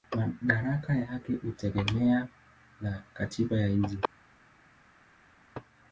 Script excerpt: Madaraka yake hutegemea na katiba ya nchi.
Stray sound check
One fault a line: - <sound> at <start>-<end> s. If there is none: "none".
none